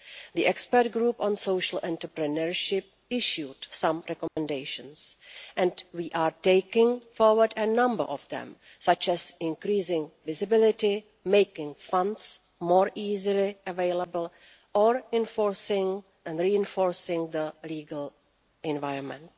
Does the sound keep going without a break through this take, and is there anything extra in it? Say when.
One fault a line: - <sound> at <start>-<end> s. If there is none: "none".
- dropout at 4.3-4.4 s